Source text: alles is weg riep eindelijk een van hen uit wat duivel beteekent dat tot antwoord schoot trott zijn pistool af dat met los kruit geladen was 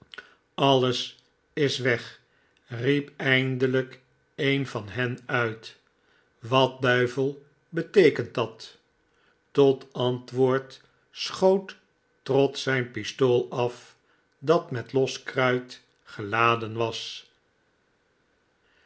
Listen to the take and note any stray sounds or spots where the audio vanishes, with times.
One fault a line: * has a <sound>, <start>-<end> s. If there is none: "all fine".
all fine